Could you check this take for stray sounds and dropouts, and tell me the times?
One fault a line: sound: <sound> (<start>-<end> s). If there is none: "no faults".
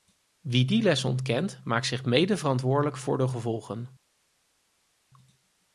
no faults